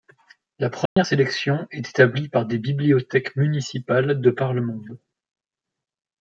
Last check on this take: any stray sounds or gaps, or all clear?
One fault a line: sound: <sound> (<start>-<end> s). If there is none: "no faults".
sound: dropout (0.9-1.0 s)